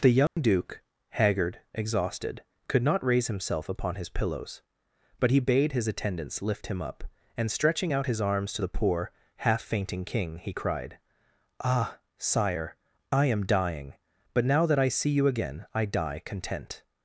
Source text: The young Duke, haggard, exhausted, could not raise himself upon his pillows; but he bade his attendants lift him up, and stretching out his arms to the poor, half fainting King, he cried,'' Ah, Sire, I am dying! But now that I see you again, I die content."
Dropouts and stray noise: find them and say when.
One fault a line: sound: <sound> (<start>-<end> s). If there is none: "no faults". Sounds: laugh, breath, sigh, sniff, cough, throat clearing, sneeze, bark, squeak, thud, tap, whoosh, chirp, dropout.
sound: dropout (0.3-0.4 s)